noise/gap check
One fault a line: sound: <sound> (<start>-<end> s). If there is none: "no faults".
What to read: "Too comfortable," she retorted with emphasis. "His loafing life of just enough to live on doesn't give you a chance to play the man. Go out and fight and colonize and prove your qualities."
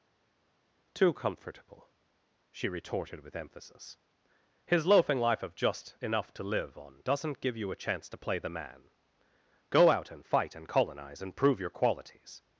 no faults